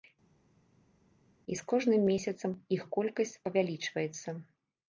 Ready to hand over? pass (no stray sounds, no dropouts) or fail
pass